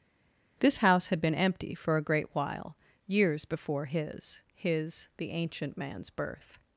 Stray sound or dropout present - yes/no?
no